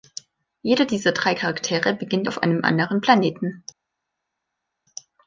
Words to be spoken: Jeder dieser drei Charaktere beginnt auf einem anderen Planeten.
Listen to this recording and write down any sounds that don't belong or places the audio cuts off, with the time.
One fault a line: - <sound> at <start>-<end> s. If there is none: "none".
none